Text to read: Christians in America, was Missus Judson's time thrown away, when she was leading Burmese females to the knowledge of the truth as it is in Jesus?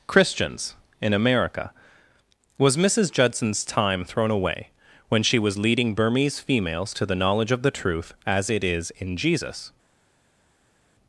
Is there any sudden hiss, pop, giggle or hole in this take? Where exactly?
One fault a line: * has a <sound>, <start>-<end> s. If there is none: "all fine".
all fine